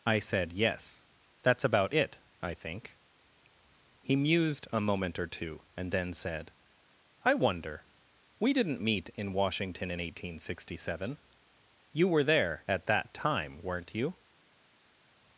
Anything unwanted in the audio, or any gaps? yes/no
no